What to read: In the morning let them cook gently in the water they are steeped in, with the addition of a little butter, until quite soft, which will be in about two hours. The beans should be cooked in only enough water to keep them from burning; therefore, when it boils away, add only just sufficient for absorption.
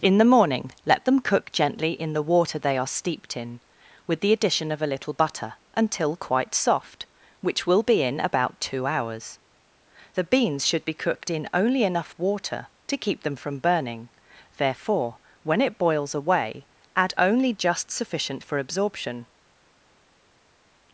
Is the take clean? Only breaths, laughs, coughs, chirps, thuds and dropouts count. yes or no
yes